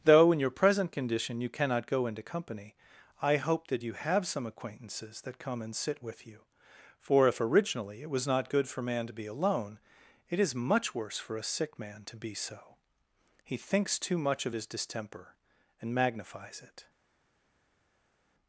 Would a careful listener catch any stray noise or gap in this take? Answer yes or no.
no